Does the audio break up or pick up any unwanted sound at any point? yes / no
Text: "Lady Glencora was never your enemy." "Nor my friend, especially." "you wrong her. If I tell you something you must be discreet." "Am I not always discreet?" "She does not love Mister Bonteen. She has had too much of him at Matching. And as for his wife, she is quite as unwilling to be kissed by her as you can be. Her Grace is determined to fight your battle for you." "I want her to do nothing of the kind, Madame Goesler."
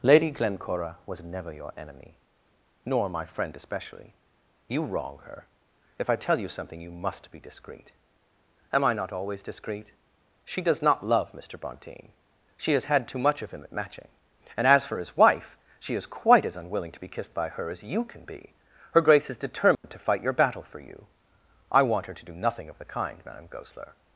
yes